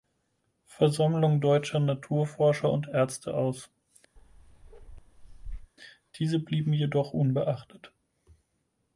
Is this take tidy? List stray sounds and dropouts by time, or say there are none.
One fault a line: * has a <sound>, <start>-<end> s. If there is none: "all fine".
* has a bark, 4.2-5.7 s